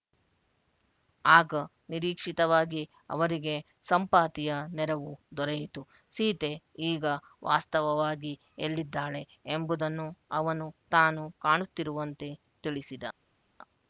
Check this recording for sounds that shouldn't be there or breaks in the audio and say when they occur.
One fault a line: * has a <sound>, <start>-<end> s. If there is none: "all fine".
all fine